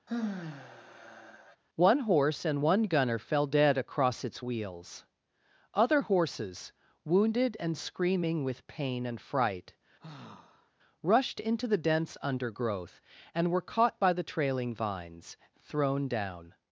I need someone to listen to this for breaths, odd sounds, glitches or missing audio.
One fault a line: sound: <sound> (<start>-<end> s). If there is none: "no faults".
sound: sigh (0.1-1.6 s)
sound: sigh (10.0-10.7 s)